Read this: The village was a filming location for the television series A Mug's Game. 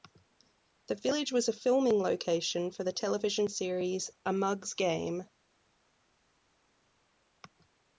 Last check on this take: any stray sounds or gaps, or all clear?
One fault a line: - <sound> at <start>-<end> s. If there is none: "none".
none